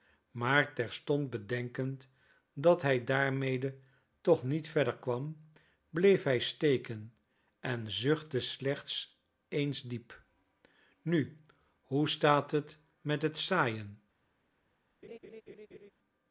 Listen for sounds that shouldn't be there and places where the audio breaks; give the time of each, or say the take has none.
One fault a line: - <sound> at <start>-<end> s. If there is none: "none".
- laugh at 15.0-15.9 s